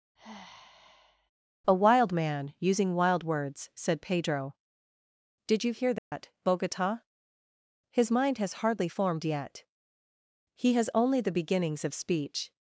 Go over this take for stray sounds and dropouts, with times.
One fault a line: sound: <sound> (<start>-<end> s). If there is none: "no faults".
sound: sigh (0.2-1.3 s)
sound: dropout (6.0-6.1 s)